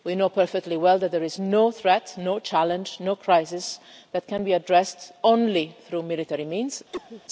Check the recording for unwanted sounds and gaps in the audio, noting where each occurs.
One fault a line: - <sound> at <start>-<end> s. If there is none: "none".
- cough at 6.9-7.2 s